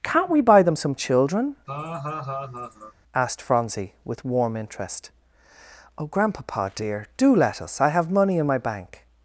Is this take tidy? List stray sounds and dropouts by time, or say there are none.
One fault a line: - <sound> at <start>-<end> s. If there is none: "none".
- laugh at 1.7-2.9 s